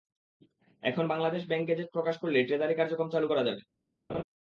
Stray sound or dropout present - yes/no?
yes